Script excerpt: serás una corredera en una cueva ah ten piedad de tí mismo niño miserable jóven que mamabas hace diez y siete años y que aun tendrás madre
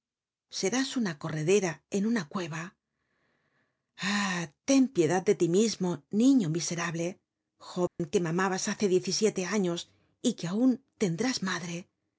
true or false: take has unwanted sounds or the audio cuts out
true